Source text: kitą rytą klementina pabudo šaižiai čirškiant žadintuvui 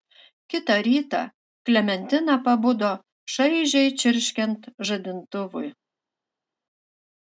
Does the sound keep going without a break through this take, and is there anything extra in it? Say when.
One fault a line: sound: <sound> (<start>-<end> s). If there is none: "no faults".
no faults